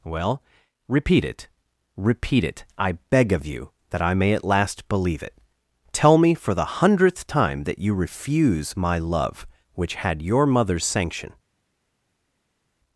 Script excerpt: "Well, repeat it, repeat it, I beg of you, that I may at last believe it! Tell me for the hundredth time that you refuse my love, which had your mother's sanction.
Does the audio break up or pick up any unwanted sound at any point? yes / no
no